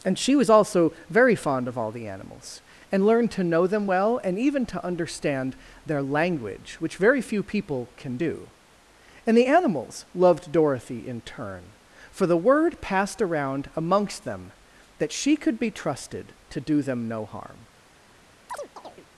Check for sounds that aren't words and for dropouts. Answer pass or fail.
fail